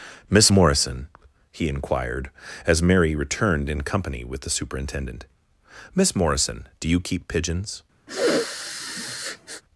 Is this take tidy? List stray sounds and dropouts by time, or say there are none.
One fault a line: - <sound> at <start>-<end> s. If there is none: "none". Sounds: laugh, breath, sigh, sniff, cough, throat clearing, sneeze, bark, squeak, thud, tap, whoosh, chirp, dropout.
- sniff at 8.1-9.6 s